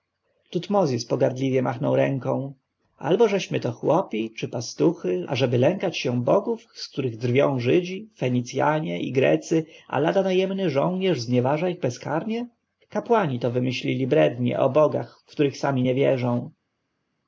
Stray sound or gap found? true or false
false